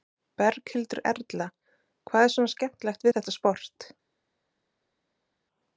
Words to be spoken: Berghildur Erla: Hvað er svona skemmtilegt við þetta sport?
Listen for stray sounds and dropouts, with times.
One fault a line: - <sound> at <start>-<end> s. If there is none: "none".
none